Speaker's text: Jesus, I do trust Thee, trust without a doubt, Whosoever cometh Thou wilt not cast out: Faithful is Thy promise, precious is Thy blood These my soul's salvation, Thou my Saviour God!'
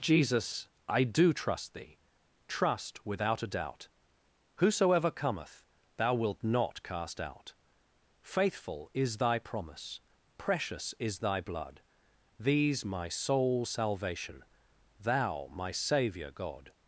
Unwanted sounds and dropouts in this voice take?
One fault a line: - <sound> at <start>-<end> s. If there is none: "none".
none